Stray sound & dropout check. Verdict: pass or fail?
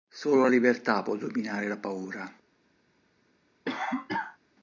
fail